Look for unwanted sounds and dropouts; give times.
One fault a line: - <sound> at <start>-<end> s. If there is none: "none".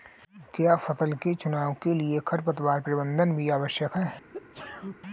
- sneeze at 4.3-5.0 s